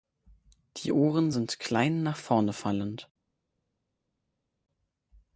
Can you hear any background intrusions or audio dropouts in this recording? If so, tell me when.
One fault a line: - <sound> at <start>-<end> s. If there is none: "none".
none